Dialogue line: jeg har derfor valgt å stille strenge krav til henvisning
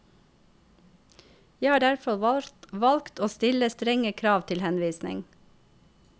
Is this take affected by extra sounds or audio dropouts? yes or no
no